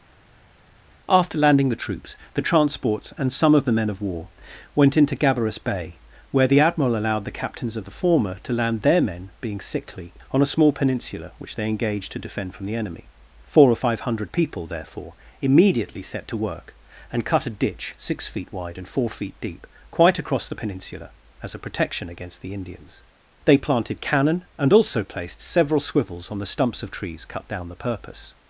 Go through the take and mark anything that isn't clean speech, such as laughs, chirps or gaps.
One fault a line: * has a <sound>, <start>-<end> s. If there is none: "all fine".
all fine